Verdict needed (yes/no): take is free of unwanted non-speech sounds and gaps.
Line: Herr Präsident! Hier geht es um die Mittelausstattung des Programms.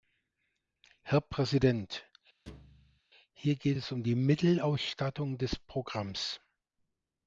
no